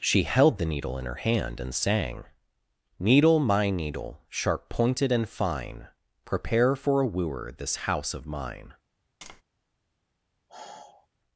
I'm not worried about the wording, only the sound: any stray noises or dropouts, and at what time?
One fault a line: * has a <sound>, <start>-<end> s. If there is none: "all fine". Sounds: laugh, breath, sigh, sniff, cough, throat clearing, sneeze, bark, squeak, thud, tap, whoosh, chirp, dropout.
* has a tap, 9.2-9.4 s
* has a sigh, 10.5-11.1 s